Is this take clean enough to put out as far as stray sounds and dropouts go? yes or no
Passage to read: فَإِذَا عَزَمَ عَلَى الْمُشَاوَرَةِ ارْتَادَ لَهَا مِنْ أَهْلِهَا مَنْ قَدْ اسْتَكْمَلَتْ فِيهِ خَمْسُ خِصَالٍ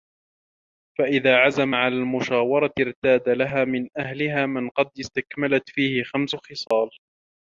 no